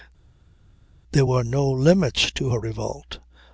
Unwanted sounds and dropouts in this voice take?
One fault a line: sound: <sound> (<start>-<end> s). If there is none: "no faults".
no faults